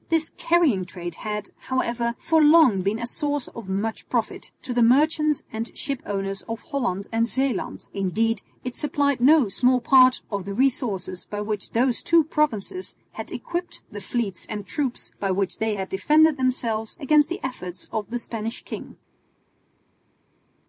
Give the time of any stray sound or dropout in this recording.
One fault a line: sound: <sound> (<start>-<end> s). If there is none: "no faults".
no faults